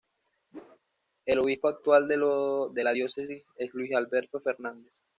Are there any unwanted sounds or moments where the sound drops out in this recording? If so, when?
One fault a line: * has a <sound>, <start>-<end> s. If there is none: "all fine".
* has a whoosh, 0.5-0.8 s